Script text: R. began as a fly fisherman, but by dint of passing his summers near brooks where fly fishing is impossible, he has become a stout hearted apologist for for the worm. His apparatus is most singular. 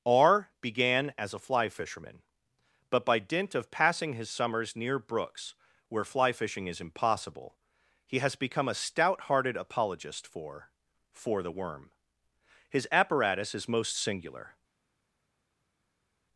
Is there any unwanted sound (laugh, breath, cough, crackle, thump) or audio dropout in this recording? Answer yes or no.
no